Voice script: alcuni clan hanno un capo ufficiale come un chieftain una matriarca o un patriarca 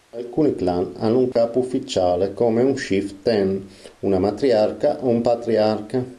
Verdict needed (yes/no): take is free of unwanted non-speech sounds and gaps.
no